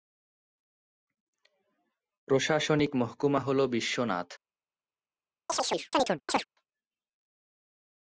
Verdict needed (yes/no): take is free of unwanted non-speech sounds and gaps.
no